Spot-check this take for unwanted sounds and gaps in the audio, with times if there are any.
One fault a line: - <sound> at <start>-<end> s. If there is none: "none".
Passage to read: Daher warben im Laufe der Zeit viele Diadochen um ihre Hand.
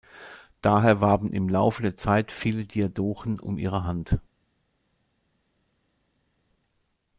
none